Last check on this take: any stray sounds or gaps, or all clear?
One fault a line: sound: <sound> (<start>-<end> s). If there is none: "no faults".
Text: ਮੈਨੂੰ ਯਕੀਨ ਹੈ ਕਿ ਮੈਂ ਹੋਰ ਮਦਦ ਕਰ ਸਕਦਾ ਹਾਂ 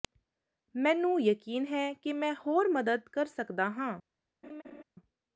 sound: laugh (4.4-4.8 s)